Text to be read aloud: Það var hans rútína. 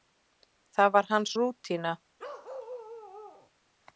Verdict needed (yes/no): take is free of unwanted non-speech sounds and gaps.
no